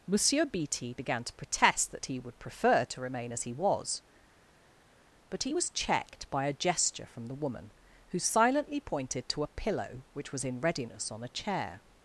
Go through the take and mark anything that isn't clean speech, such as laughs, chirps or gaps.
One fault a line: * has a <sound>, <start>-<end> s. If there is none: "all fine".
all fine